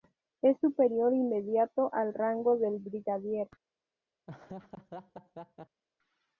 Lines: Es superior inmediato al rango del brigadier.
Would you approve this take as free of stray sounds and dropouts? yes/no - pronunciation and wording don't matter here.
no